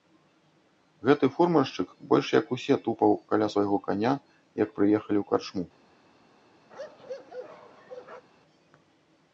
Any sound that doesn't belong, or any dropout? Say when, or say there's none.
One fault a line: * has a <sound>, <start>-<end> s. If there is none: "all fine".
* has a bark, 6.7-8.3 s